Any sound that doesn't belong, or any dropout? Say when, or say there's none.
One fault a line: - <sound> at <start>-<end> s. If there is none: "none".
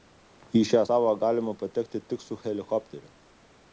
none